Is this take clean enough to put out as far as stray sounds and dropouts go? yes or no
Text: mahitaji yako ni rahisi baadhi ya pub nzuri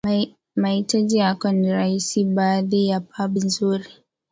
yes